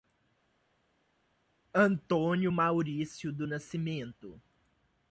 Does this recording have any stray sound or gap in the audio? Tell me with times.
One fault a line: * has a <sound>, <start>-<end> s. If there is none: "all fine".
all fine